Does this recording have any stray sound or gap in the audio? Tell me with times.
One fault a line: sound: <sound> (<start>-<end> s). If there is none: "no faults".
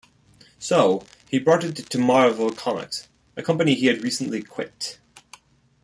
no faults